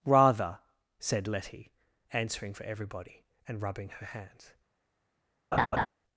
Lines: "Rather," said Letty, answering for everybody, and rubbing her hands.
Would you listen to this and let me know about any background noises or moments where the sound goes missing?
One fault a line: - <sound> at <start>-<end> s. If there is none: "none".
- laugh at 5.5-5.9 s